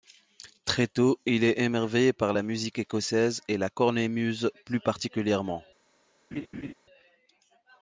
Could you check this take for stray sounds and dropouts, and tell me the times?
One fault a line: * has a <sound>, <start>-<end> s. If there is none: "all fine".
* has a laugh, 6.3-6.7 s